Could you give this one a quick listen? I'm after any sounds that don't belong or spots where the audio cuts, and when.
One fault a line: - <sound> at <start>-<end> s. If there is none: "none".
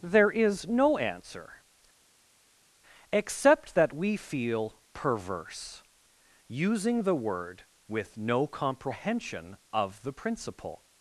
none